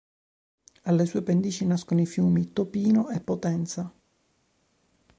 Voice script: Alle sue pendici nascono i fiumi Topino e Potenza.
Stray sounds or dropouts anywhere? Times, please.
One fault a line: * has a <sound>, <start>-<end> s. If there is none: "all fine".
all fine